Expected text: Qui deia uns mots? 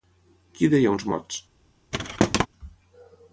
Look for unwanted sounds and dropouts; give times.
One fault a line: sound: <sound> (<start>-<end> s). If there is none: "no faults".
sound: thud (1.9-2.5 s)